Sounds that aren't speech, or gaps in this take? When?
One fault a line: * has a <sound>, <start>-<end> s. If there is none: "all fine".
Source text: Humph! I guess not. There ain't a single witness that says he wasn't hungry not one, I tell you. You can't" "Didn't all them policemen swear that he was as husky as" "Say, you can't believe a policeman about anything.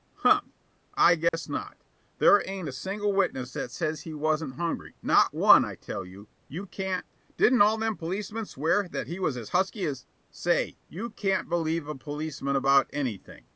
* has a dropout, 1.3-1.3 s